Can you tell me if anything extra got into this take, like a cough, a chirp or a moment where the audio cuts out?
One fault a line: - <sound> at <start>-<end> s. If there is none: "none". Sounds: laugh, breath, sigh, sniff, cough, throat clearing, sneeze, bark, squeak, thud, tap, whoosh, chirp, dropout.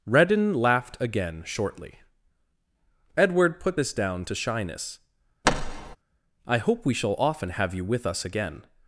- thud at 5.4-6.0 s